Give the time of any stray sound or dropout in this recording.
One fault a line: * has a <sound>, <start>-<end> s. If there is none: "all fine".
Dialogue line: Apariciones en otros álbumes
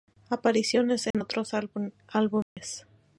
* has a dropout, 1.1-1.1 s
* has a dropout, 2.4-2.6 s